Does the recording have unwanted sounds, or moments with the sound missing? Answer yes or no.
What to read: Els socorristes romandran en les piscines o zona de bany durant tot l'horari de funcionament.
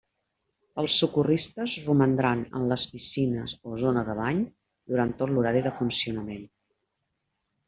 no